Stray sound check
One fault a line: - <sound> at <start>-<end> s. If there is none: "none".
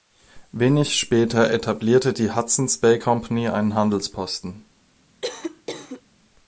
- cough at 5.2-6.0 s